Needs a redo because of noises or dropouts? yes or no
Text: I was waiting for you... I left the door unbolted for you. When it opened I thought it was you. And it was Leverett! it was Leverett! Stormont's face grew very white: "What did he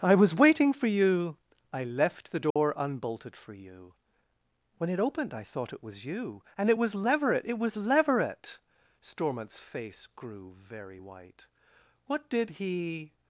yes